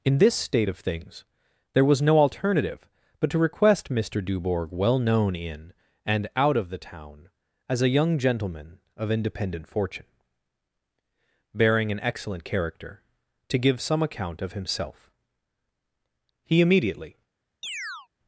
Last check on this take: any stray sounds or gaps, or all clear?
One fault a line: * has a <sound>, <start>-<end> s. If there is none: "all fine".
* has a chirp, 17.6-18.1 s